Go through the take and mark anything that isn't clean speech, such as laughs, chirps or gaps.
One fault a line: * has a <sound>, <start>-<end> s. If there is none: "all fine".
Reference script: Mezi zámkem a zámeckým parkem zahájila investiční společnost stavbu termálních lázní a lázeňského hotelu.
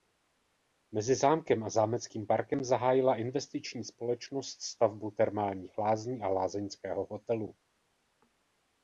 all fine